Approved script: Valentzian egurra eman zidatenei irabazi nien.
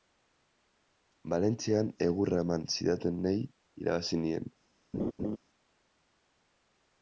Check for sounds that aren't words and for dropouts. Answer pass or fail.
fail